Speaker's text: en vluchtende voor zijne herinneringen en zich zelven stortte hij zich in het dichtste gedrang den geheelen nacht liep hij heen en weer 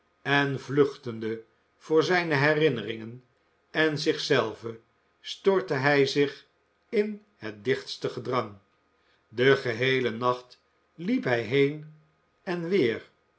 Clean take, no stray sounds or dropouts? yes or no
yes